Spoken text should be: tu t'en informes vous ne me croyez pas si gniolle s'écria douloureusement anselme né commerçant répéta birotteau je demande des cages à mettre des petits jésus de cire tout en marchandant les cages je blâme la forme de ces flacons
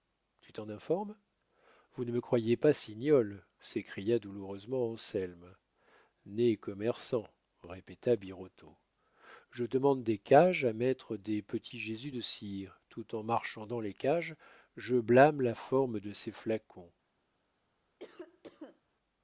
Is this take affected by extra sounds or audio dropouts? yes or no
yes